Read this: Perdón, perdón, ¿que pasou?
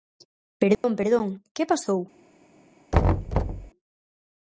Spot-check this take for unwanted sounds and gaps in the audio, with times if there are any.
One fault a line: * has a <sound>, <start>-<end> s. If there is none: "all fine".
* has a dropout, 0.7-0.8 s
* has a thud, 2.9-3.7 s